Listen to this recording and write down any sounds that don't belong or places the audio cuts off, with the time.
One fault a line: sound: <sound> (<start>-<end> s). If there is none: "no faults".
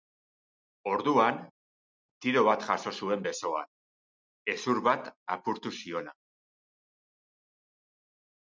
no faults